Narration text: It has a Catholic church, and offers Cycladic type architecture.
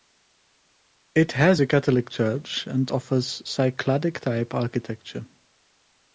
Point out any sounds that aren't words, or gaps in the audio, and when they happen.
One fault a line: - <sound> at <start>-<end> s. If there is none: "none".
none